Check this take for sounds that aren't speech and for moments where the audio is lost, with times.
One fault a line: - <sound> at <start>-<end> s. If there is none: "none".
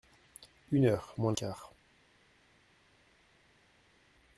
none